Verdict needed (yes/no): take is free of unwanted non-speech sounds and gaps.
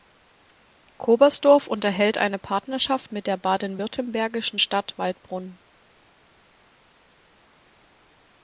yes